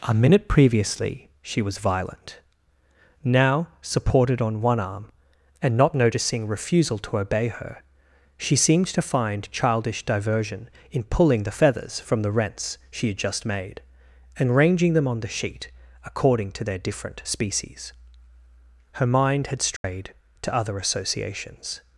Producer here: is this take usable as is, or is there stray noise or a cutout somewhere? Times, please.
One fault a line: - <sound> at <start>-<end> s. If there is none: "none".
- dropout at 19.8-19.8 s